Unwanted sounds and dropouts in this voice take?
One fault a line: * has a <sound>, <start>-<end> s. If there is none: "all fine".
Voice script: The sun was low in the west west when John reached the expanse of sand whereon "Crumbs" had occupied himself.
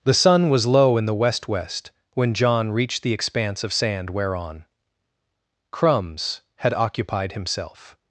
all fine